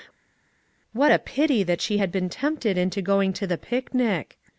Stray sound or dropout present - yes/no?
no